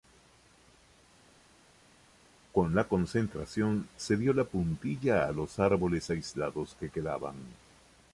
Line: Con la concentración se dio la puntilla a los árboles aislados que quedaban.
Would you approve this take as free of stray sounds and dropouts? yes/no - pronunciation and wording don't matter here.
yes